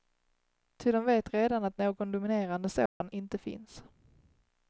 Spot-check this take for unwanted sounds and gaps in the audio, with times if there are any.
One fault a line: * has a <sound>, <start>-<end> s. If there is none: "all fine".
* has a dropout, 2.9-3.0 s